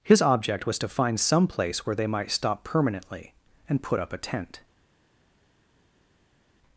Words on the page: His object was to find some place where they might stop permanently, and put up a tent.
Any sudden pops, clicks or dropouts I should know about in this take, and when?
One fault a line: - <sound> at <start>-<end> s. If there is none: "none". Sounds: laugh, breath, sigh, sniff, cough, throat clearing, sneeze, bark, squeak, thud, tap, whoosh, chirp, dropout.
none